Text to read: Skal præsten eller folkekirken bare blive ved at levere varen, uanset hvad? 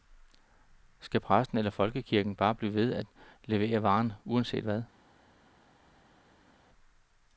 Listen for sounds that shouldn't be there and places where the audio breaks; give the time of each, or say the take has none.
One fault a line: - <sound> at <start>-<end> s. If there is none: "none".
none